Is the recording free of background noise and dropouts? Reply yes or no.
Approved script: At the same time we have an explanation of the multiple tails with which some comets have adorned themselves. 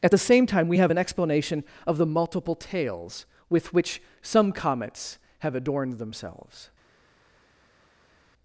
yes